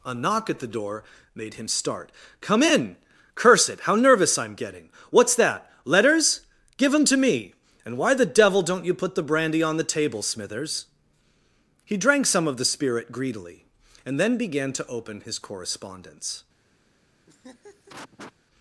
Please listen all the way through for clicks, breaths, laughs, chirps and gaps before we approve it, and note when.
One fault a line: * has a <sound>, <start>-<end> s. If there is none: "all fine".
* has a laugh, 17.3-18.3 s